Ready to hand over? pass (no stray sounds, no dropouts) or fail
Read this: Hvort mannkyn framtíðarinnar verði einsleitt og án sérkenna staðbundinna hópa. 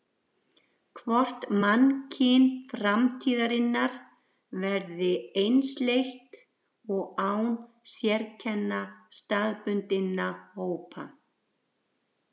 pass